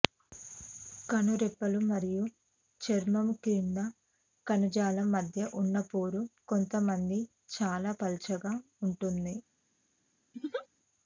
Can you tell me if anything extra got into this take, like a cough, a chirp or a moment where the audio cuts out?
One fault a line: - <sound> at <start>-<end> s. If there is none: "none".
- laugh at 10.3-10.7 s